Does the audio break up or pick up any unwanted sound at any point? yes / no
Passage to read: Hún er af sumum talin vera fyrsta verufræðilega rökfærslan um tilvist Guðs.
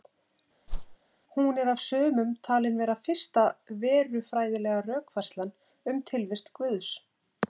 yes